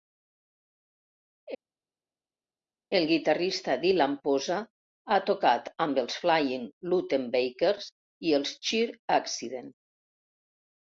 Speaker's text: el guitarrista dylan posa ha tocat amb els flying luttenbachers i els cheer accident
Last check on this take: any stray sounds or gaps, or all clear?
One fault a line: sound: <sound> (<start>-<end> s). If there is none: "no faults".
no faults